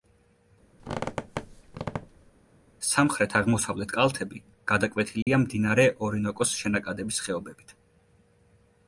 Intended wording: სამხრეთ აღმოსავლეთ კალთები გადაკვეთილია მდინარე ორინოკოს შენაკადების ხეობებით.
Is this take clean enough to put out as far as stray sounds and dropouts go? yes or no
no